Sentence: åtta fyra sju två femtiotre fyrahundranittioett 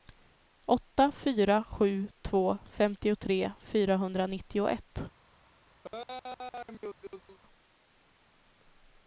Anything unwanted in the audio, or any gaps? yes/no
yes